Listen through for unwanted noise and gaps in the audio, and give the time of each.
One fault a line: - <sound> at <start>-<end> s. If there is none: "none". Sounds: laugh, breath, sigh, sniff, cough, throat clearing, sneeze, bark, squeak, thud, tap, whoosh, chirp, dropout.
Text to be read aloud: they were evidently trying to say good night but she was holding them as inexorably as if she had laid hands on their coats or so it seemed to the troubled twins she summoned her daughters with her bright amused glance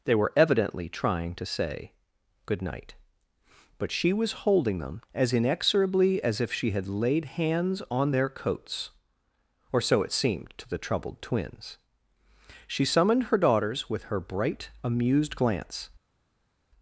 none